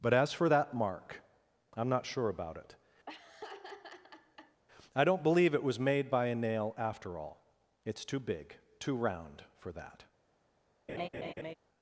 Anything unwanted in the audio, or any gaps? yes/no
yes